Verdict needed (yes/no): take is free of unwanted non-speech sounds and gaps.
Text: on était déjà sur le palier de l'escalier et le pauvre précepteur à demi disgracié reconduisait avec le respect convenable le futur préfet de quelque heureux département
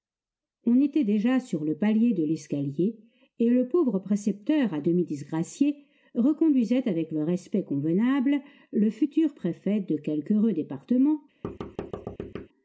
no